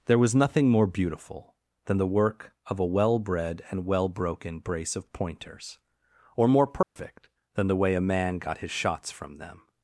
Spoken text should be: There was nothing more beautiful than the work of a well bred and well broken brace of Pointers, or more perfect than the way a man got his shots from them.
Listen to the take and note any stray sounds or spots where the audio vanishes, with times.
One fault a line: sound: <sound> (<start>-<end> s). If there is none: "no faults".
sound: dropout (6.8-7.0 s)